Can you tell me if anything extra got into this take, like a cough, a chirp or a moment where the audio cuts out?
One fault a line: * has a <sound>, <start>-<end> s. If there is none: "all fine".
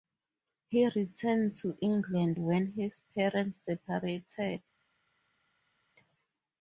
all fine